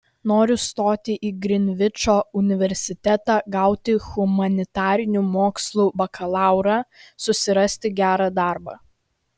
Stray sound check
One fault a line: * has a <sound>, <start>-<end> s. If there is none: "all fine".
all fine